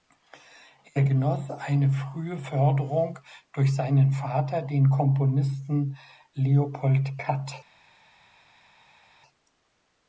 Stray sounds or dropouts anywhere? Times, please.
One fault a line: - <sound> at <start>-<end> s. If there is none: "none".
none